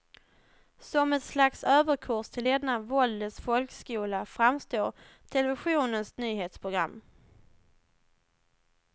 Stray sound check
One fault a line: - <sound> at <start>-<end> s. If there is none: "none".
none